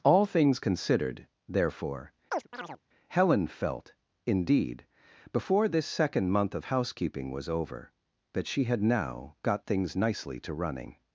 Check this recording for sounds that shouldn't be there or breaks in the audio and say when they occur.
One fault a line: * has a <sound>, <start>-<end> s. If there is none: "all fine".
* has a chirp, 2.3-2.8 s